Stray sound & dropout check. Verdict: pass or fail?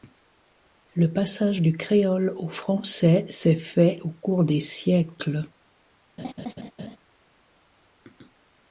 fail